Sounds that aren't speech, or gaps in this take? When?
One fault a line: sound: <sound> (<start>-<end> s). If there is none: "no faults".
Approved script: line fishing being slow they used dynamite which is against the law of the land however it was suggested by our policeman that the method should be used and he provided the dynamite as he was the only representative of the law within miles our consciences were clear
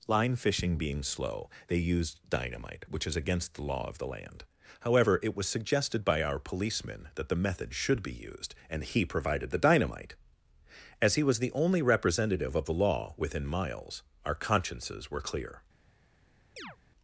sound: chirp (16.6-16.8 s)